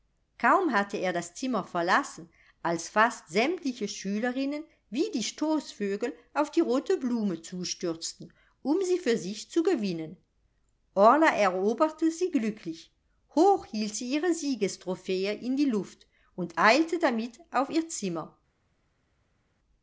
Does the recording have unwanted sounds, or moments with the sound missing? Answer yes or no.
no